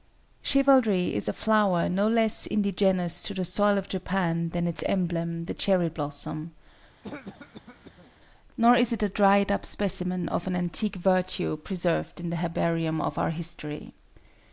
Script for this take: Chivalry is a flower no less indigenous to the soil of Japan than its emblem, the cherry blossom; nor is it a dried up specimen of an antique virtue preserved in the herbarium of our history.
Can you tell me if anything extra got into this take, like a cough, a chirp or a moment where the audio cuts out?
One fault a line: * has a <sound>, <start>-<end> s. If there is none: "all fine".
* has a cough, 7.0-8.1 s